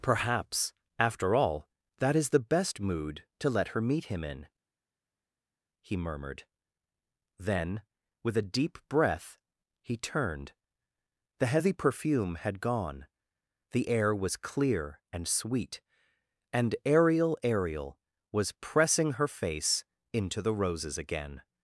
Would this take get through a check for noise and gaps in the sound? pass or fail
pass